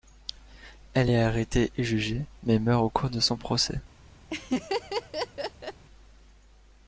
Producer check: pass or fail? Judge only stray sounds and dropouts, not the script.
fail